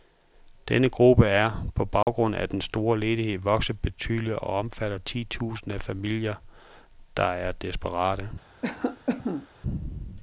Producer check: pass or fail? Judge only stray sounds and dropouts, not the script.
fail